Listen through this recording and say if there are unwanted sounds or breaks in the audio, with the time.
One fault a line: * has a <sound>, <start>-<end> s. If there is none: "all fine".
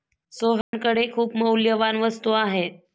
* has a dropout, 0.6-0.7 s